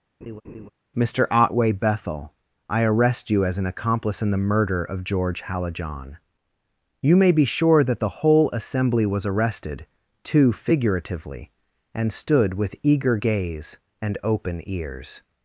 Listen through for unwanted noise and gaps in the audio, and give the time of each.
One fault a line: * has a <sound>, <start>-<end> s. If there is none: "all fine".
* has a laugh, 0.2-0.7 s